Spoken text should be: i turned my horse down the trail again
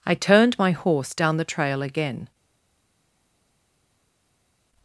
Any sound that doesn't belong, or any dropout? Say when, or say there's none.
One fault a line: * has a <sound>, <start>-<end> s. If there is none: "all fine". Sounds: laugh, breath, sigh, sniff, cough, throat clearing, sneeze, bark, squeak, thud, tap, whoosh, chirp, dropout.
all fine